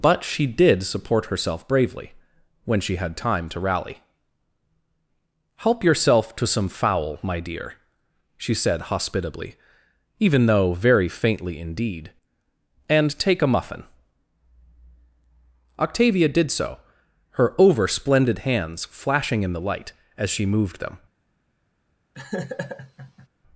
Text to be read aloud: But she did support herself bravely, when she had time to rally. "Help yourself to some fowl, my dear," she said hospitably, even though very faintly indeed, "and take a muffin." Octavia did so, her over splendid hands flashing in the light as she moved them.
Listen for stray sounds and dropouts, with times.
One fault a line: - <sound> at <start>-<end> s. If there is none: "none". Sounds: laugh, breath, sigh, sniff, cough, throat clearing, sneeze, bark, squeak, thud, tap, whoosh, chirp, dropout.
- laugh at 22.1-23.3 s